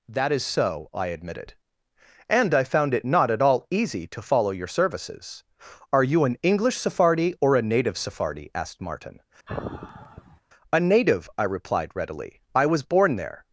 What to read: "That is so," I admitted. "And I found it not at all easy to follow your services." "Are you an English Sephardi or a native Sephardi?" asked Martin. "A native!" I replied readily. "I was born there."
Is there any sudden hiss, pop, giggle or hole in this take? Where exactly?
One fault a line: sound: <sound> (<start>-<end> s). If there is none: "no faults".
sound: sigh (9.5-10.4 s)